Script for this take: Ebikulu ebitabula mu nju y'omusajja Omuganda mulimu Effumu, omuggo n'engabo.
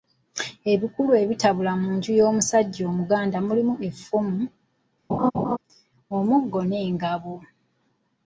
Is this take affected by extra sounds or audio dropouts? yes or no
yes